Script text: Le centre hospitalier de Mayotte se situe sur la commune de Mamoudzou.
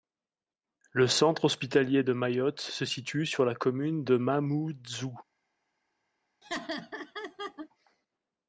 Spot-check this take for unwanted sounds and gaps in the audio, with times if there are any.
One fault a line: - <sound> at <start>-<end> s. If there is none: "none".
- laugh at 6.4-7.7 s